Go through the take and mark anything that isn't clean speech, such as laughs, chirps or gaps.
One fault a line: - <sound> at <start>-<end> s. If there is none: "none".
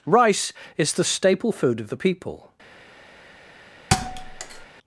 - thud at 3.9-4.7 s